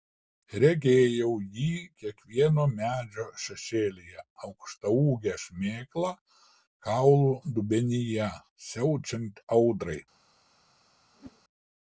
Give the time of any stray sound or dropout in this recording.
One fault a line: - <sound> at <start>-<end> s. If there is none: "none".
- whoosh at 11.1-11.4 s